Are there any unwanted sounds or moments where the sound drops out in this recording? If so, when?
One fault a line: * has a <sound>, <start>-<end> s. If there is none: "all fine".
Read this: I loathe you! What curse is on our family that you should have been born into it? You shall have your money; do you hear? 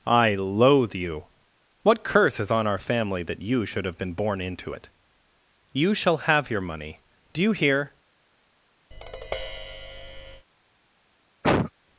* has a tap, 8.9-10.5 s
* has a cough, 11.4-11.7 s